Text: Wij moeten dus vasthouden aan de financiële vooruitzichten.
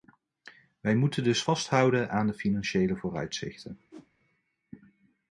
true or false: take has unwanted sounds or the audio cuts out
true